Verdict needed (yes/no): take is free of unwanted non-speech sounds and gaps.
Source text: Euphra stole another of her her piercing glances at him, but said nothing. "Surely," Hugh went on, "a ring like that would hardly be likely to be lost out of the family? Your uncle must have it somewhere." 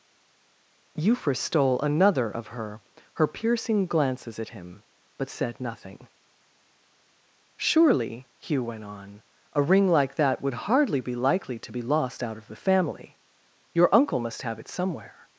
yes